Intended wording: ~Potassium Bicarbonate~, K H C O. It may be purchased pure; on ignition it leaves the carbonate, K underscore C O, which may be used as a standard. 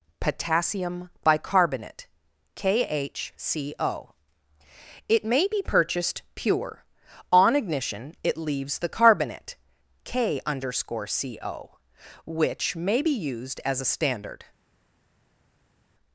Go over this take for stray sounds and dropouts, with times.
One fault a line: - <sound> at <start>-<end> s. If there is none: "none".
none